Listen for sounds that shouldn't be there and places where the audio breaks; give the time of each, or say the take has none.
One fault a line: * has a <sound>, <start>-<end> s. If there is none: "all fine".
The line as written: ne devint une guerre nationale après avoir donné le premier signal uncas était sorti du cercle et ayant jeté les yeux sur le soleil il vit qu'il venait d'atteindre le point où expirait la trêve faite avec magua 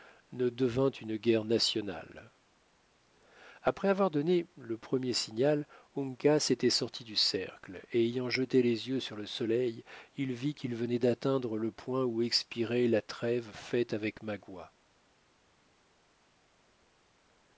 all fine